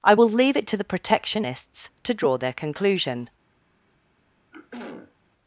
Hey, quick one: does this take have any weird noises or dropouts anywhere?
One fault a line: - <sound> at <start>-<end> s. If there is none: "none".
- throat clearing at 4.5-5.1 s